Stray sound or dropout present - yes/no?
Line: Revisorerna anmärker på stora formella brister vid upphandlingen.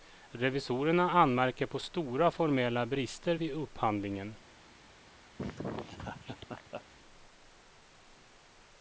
yes